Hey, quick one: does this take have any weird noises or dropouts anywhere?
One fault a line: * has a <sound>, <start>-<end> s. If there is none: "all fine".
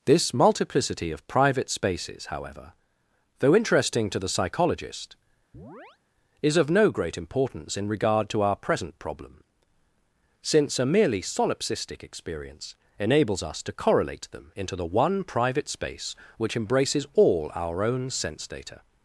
* has a chirp, 5.5-6.0 s